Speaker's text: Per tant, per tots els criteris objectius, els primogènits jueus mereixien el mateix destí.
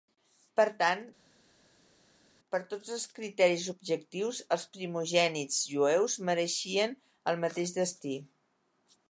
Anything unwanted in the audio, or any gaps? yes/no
no